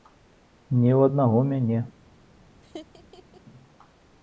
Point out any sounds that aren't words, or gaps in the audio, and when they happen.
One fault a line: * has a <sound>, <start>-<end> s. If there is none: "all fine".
* has a laugh, 2.6-3.4 s